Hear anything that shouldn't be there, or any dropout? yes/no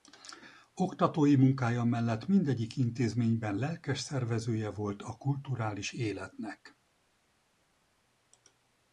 no